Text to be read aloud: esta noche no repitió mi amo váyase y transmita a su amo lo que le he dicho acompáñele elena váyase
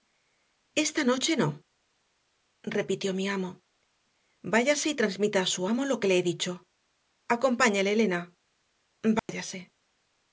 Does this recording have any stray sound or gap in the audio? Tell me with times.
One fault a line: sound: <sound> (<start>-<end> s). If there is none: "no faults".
sound: dropout (9.2-9.3 s)